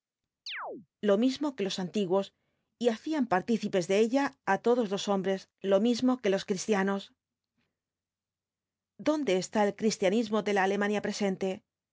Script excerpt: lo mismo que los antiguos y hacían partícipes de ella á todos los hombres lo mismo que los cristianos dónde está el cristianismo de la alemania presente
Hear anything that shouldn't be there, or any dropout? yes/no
yes